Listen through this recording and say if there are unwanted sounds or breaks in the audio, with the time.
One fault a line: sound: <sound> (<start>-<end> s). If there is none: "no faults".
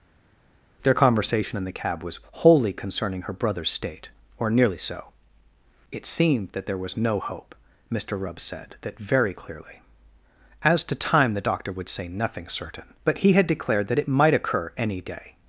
no faults